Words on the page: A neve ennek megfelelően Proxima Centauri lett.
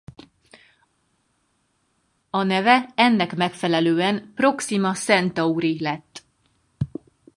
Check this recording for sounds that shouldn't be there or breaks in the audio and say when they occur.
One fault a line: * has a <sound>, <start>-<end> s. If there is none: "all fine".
all fine